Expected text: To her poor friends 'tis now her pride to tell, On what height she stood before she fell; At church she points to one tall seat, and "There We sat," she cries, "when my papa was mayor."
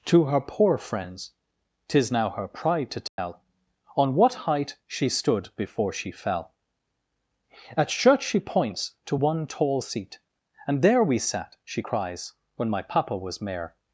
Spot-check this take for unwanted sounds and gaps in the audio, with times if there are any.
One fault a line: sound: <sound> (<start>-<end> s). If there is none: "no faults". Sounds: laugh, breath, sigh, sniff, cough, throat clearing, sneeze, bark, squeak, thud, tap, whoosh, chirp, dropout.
sound: dropout (3.1-3.2 s)